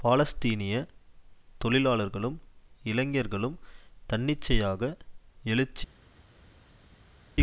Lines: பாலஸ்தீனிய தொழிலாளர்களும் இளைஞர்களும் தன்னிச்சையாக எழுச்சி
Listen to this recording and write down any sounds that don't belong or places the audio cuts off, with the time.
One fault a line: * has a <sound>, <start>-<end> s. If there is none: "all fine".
all fine